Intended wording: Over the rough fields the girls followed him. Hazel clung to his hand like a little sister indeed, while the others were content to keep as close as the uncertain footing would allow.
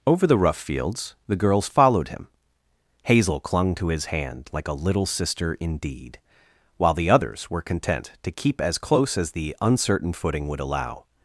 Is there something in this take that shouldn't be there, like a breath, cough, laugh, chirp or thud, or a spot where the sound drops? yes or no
no